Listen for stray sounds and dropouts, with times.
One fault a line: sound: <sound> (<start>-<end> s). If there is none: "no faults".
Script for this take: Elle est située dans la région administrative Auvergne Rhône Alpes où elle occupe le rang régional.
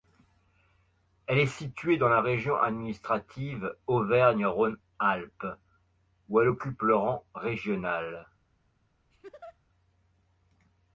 sound: laugh (9.1-9.6 s)